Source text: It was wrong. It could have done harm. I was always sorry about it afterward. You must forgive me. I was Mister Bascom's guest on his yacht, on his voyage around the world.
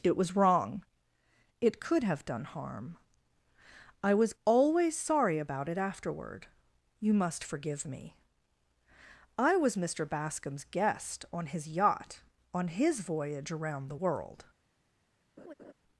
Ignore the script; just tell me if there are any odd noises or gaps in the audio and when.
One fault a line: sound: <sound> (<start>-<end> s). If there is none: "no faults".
sound: laugh (15.4-15.7 s)